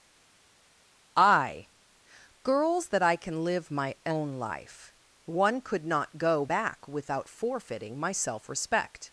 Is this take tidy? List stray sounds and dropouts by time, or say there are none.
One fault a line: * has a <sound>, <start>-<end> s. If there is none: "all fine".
all fine